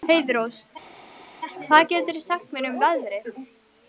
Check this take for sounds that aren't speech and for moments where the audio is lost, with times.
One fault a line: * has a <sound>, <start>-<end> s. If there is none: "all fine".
all fine